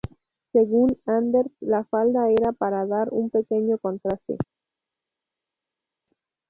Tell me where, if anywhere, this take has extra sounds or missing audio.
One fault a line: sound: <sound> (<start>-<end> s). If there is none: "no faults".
no faults